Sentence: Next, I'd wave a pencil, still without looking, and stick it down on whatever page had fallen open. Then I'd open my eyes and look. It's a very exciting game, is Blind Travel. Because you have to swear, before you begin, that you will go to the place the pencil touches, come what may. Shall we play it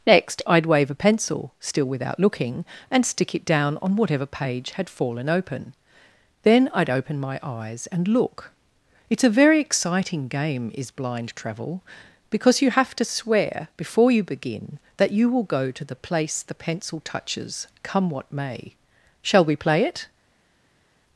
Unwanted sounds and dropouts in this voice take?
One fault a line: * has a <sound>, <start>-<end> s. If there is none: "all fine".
all fine